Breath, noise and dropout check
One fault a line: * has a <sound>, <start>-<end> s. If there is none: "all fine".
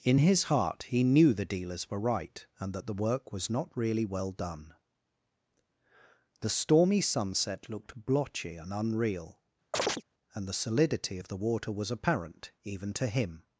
* has a chirp, 9.7-10.0 s